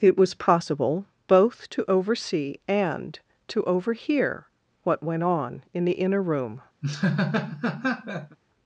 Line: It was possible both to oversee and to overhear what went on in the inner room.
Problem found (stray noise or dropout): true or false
true